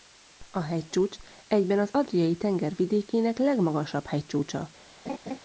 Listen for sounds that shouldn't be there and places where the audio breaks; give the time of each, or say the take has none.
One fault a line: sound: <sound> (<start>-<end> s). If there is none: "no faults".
sound: laugh (5.0-5.4 s)